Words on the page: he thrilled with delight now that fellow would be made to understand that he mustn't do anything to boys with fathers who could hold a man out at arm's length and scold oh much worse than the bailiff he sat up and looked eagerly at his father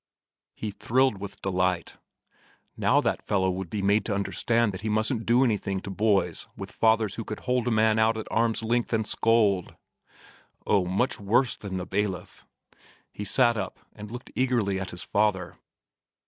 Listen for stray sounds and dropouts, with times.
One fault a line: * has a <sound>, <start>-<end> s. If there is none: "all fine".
all fine